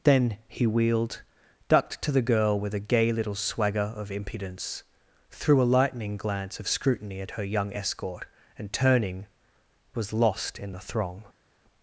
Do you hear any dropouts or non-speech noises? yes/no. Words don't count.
no